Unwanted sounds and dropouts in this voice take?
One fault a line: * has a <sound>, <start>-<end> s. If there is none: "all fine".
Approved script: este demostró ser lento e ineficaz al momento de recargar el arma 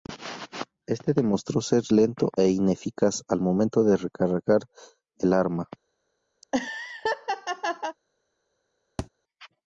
* has a laugh, 6.4-8.0 s
* has a thud, 9.0-9.1 s